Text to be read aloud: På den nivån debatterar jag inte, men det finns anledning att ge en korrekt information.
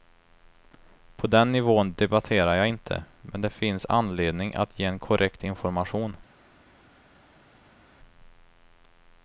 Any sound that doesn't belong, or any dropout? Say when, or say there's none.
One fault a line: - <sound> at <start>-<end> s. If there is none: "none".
none